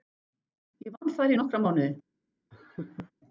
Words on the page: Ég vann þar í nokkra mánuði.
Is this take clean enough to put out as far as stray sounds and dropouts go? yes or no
no